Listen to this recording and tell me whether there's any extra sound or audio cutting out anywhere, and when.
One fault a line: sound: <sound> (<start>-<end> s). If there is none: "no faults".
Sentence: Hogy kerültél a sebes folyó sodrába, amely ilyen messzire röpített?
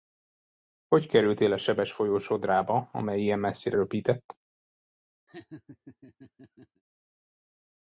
sound: laugh (5.3-6.8 s)